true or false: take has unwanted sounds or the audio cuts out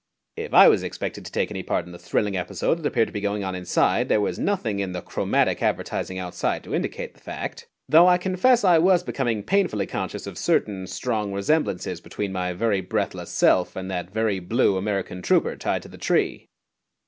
false